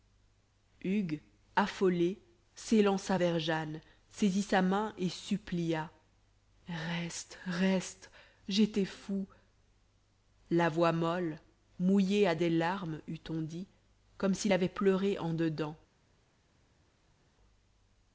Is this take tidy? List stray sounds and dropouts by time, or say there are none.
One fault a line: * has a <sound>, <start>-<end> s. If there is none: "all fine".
all fine